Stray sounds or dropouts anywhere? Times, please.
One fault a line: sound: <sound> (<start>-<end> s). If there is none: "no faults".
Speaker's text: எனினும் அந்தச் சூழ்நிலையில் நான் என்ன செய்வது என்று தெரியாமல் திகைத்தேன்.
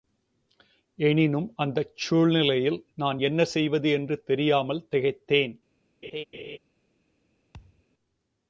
sound: laugh (6.0-6.6 s)
sound: thud (7.5-7.8 s)